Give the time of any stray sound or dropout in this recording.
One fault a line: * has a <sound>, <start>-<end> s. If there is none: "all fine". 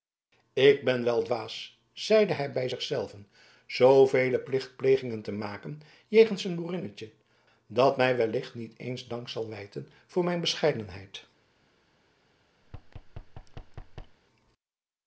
* has a thud, 12.6-14.2 s